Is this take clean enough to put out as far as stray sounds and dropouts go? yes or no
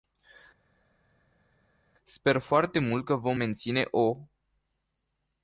yes